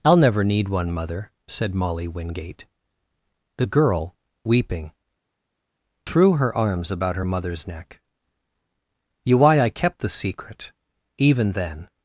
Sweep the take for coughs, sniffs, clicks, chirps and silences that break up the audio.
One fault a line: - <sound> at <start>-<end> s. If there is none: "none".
none